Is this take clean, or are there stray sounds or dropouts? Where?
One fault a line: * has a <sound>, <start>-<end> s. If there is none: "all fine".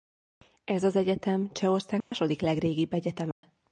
* has a dropout, 2.0-2.1 s
* has a dropout, 3.3-3.4 s